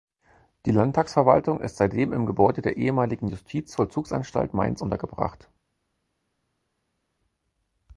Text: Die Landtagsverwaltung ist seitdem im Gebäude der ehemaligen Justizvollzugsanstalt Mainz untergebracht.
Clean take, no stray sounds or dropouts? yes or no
yes